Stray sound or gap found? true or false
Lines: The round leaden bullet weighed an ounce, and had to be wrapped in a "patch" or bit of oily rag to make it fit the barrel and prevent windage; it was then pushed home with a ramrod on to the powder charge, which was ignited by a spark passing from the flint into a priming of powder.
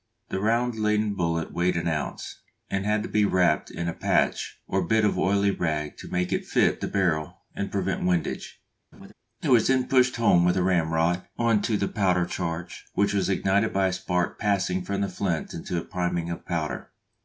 true